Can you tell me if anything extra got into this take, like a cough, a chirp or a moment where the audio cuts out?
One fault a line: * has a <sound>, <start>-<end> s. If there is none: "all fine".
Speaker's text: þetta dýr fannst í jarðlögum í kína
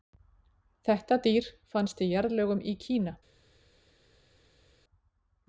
all fine